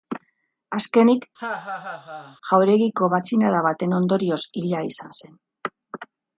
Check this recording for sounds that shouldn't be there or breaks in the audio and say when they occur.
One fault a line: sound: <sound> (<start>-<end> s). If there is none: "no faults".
sound: laugh (1.4-2.4 s)